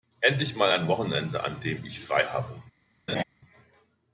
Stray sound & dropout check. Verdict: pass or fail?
fail